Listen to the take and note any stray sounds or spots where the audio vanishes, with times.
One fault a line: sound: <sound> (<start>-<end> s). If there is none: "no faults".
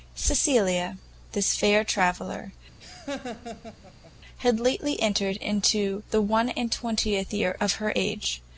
sound: laugh (2.8-4.1 s)